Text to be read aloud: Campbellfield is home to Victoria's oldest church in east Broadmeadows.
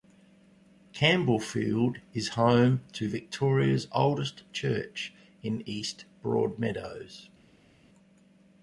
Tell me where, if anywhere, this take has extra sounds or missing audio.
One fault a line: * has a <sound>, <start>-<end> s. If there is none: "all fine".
all fine